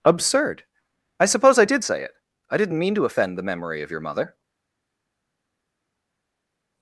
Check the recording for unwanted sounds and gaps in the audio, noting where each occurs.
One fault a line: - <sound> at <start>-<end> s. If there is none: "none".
none